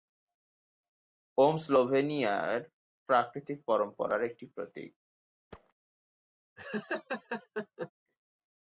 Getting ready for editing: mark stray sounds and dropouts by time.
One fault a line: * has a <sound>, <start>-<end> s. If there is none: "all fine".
* has a thud, 5.5-5.7 s
* has a laugh, 6.6-7.9 s